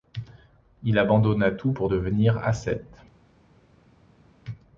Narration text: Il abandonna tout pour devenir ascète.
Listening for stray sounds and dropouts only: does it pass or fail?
pass